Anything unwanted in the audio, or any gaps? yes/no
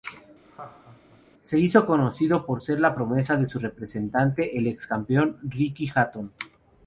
yes